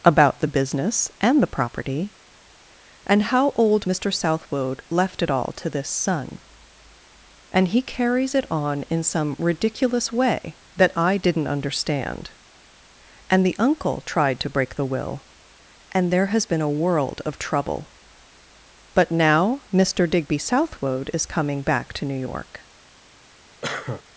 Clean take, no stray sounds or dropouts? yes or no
no